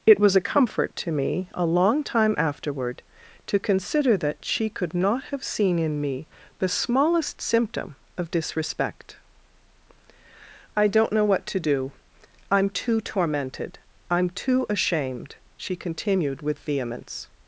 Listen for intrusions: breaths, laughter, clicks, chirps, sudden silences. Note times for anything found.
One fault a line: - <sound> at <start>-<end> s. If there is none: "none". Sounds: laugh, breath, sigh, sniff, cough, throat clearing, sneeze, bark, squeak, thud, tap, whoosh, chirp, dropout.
none